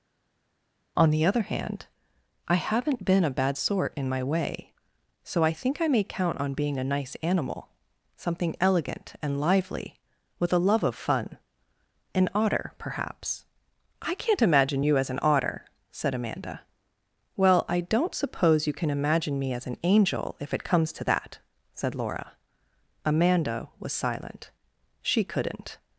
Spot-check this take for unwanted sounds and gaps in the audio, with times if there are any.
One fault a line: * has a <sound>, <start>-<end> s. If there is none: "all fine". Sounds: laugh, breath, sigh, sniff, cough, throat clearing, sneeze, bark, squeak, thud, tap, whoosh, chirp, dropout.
all fine